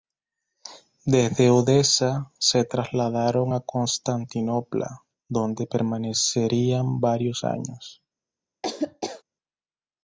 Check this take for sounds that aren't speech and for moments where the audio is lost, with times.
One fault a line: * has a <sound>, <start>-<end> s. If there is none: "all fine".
* has a laugh, 8.6-9.2 s